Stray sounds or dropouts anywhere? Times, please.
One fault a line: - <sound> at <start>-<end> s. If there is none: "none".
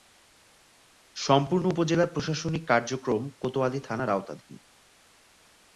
none